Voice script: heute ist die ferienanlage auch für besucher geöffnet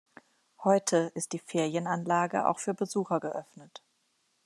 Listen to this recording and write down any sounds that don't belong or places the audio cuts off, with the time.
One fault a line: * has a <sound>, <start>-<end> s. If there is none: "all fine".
all fine